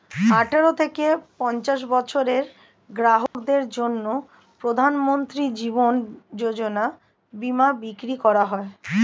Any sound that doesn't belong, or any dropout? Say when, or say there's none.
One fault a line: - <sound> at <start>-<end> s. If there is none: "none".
- dropout at 3.3-3.3 s